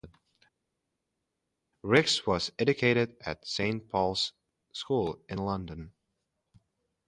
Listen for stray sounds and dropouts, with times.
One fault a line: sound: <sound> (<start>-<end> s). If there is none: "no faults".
no faults